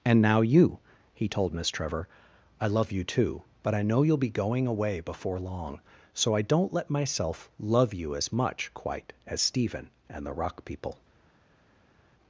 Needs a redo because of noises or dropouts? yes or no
no